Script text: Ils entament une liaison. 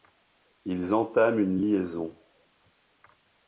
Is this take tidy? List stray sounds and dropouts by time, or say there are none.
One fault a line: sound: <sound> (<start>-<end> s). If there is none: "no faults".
no faults